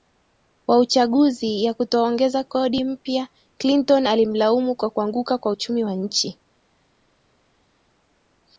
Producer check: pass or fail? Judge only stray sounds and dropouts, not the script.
pass